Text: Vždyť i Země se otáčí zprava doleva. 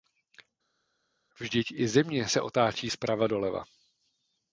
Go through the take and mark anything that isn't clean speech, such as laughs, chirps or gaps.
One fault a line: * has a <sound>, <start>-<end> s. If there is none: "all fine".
all fine